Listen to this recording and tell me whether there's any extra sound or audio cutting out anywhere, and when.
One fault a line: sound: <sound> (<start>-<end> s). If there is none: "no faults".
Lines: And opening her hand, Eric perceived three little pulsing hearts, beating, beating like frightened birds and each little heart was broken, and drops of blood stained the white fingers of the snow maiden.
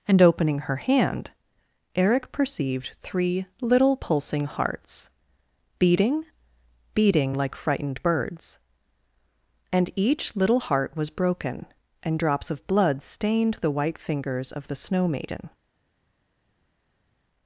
no faults